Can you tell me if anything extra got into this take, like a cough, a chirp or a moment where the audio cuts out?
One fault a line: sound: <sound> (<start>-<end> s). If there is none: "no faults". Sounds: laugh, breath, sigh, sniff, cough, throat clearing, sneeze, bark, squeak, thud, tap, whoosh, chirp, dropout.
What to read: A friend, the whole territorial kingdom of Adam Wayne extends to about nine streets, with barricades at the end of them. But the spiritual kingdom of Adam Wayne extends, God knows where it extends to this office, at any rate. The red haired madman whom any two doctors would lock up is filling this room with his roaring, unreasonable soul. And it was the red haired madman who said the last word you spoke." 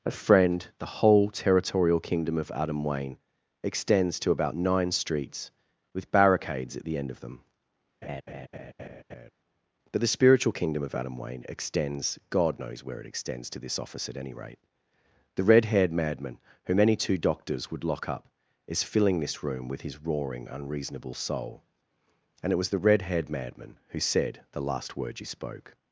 sound: laugh (8.0-9.3 s)